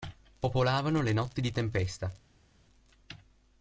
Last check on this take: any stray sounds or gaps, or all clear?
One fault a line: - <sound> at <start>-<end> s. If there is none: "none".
none